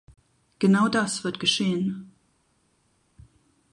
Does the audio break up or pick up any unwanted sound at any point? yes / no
no